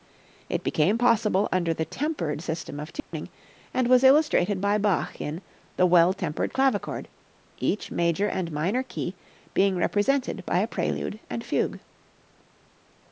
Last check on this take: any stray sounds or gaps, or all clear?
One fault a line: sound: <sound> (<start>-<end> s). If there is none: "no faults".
sound: dropout (3.0-3.1 s)